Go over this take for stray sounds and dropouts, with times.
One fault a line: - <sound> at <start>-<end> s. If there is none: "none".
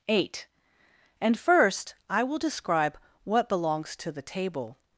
none